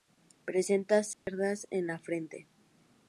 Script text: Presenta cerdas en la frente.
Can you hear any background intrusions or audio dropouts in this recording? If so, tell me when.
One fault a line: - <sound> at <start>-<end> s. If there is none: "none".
- dropout at 1.1-1.3 s